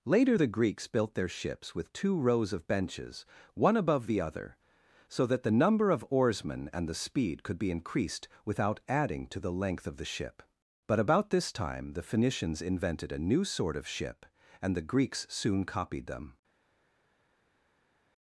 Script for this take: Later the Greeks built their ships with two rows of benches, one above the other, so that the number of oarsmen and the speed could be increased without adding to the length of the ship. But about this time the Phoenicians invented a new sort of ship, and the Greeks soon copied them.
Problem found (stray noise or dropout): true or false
false